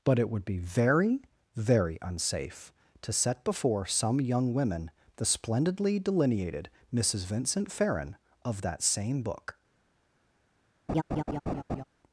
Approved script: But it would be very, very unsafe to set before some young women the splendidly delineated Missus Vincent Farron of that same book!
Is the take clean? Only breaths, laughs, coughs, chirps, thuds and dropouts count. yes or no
no